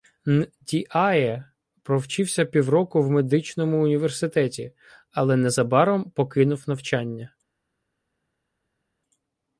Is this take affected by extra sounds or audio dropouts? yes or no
no